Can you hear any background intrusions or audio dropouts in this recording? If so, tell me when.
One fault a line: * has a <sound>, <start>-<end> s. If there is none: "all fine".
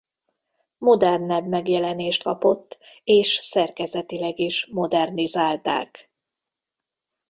all fine